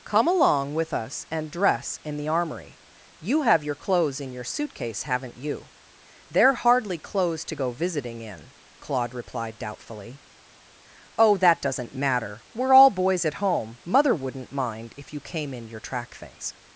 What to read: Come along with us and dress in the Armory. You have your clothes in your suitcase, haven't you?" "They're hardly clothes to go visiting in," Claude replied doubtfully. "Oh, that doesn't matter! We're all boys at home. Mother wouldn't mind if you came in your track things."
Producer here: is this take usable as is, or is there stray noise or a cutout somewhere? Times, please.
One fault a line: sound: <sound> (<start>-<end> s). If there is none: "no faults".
no faults